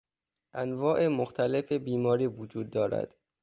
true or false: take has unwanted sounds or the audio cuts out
false